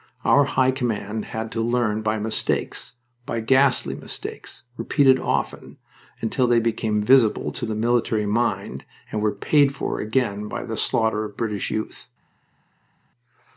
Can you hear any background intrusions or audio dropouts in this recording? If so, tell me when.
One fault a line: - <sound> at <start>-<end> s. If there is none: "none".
none